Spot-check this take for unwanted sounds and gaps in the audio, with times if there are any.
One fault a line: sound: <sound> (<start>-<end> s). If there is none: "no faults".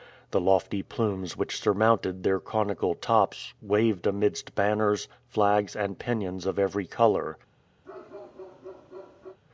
sound: bark (7.8-9.4 s)